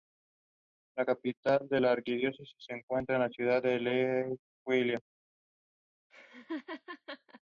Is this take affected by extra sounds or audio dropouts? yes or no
yes